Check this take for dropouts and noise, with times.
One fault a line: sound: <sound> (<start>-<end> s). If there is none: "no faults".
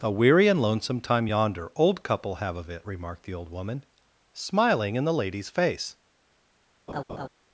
sound: laugh (6.9-7.3 s)